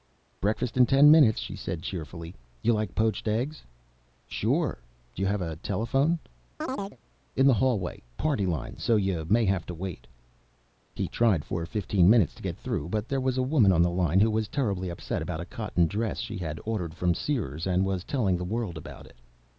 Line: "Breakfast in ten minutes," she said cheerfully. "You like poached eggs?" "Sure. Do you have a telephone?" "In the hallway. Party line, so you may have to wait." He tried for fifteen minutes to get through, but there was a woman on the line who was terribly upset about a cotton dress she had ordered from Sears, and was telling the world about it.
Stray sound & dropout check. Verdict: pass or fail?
fail